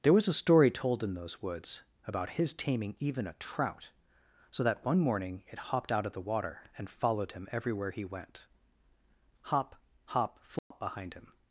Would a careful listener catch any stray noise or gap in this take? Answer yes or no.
yes